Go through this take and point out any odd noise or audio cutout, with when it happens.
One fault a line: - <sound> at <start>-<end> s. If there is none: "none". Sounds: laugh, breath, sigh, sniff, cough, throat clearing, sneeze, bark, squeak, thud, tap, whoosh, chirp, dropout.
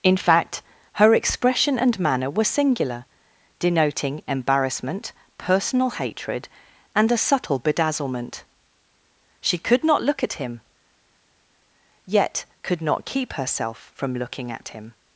none